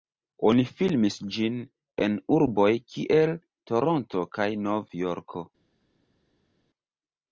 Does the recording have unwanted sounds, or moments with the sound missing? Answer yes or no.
no